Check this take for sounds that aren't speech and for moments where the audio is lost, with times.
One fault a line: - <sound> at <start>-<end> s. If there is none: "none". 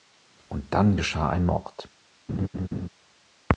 - laugh at 2.3-2.9 s